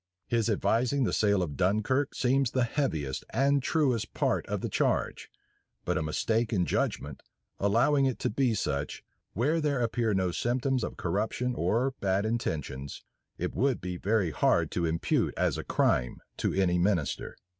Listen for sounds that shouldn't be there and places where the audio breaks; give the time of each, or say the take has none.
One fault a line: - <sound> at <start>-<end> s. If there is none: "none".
none